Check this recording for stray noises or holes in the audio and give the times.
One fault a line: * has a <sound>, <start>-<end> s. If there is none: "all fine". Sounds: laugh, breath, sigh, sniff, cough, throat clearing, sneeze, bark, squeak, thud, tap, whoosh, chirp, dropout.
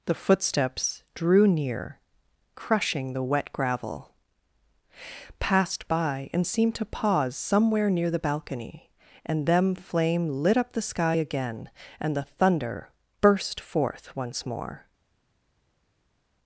all fine